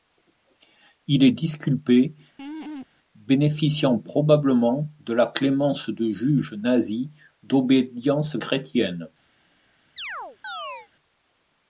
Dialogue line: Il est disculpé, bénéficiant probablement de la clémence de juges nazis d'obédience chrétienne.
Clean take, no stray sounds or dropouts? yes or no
no